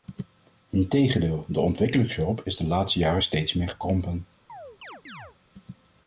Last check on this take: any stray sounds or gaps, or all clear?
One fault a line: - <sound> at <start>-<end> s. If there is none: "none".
- chirp at 4.5-5.4 s